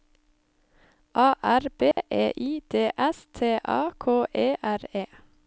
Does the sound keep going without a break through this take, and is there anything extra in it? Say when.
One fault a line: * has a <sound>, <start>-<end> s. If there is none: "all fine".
* has a dropout, 1.9-2.0 s